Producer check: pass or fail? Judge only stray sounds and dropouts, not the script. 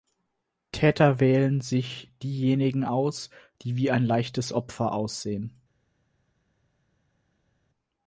pass